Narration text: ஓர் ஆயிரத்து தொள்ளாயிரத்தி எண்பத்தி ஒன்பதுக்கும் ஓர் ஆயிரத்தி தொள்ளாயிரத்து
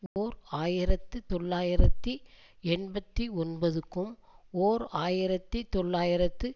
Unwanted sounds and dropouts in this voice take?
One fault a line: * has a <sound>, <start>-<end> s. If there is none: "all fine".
* has a dropout, 0.1-0.2 s